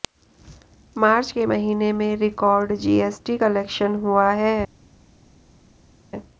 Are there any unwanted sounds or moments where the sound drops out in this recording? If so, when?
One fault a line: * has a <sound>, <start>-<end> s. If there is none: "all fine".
all fine